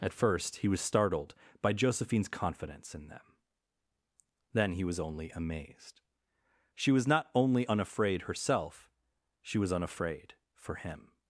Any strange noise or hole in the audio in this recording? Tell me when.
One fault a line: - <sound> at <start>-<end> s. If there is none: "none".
none